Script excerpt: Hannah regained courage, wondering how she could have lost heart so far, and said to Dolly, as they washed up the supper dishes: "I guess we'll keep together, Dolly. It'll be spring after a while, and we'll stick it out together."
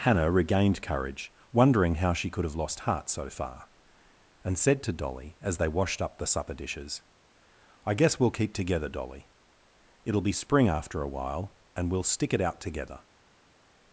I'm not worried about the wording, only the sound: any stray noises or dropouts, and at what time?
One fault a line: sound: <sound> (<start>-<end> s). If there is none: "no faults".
no faults